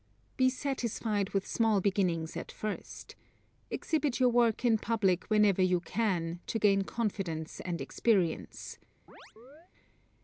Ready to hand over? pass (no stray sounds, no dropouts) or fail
fail